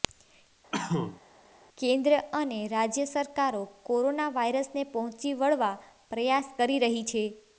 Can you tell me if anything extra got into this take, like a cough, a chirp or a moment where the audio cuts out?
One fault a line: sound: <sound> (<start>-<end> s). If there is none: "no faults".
sound: cough (0.7-1.2 s)